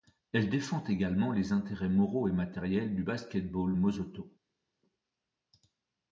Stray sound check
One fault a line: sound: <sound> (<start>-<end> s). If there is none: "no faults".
no faults